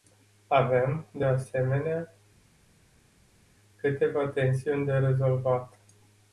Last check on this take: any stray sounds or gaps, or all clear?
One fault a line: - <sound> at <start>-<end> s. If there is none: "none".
none